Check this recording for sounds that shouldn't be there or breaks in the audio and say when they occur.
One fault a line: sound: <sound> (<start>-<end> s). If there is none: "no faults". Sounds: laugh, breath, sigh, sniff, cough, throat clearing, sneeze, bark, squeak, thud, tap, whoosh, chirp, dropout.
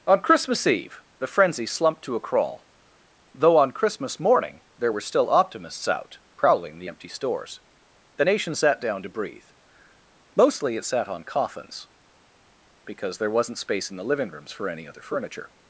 no faults